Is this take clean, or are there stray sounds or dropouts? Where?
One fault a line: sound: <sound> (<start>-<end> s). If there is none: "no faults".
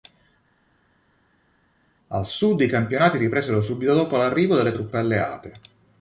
no faults